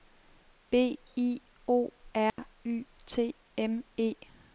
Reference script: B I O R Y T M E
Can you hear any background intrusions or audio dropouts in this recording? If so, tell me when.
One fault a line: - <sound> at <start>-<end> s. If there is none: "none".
- dropout at 2.3-2.4 s